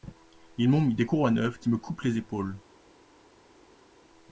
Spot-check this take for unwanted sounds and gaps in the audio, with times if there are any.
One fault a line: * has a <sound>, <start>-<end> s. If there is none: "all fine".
all fine